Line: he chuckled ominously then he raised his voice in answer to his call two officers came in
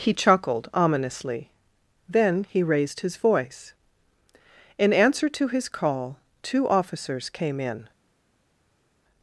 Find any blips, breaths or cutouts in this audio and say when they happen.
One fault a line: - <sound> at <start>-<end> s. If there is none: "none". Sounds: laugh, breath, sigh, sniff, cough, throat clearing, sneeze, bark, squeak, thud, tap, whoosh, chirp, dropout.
none